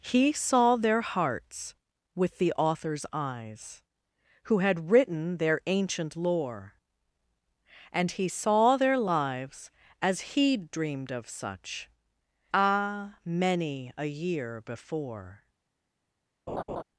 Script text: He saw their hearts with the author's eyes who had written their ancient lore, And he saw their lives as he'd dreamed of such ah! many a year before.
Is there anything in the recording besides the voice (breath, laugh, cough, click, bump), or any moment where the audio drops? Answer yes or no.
yes